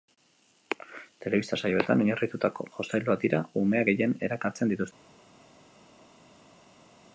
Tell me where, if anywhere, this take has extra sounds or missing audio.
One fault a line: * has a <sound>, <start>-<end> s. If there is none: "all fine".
all fine